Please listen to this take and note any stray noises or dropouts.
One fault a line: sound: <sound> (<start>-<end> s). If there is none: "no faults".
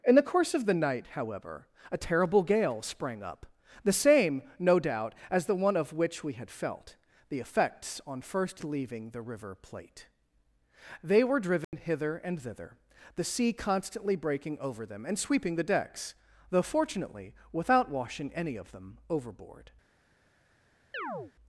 sound: dropout (11.6-11.7 s)
sound: chirp (20.9-21.3 s)